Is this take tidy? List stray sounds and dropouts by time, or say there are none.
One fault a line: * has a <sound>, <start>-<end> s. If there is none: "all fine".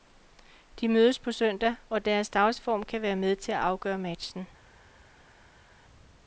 all fine